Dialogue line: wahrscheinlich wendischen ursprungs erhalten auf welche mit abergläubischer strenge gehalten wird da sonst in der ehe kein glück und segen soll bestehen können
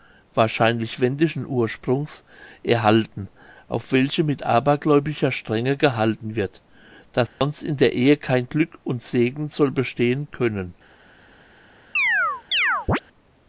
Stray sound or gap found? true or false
true